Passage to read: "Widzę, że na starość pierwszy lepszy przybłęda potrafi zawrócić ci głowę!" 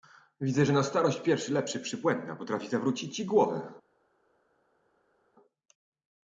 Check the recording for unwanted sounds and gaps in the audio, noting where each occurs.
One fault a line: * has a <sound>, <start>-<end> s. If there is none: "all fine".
all fine